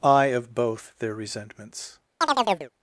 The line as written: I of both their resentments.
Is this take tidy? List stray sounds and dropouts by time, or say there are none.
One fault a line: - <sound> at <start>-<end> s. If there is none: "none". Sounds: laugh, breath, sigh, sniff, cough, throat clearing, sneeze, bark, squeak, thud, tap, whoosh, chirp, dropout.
- chirp at 2.2-2.7 s